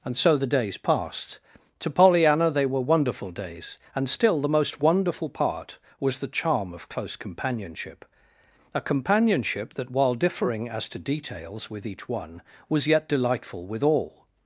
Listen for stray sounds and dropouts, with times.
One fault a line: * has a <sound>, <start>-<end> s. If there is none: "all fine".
all fine